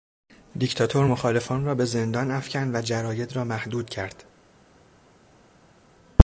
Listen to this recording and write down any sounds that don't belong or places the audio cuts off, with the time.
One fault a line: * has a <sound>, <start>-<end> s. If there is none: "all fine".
all fine